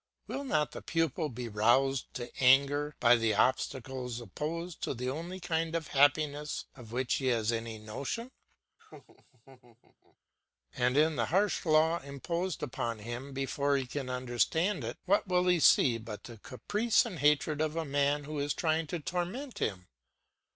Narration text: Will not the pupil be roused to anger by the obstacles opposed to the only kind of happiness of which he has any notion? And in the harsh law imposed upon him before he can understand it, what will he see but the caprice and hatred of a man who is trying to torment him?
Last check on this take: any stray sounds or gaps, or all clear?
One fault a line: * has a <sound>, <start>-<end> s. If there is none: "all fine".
* has a laugh, 8.8-10.2 s